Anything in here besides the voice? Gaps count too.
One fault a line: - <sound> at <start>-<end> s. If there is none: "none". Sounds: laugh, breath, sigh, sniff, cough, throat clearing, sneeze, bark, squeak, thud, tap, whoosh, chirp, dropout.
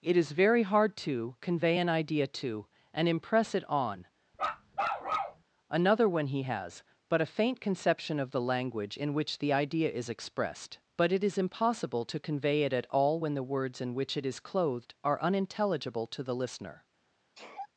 - bark at 4.3-5.4 s
- sneeze at 17.3-17.7 s